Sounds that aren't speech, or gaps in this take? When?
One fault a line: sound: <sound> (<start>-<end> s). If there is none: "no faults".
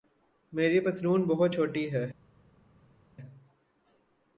no faults